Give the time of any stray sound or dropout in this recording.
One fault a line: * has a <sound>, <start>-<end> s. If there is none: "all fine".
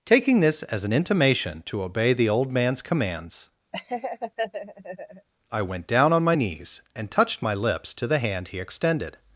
* has a laugh, 3.7-5.3 s